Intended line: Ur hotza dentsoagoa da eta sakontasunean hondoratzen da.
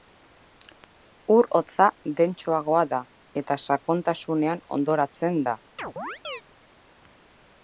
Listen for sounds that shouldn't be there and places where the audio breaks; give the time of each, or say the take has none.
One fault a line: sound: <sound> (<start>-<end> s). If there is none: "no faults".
sound: chirp (5.8-6.4 s)